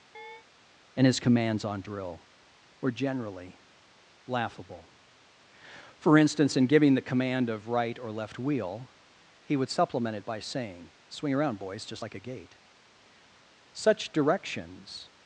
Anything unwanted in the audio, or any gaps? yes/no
yes